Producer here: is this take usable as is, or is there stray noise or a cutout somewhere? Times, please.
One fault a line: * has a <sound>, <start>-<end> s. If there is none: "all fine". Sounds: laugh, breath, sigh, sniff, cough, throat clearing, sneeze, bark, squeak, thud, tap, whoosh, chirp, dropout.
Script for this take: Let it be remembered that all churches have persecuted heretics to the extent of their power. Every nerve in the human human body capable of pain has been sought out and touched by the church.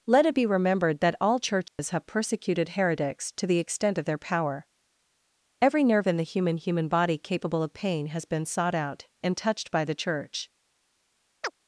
* has a dropout, 1.7-1.8 s
* has a chirp, 11.4-11.5 s